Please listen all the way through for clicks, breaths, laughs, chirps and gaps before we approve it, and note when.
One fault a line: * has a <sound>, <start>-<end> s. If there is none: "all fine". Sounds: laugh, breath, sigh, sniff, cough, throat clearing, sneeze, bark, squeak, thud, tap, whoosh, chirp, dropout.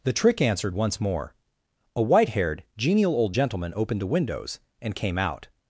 all fine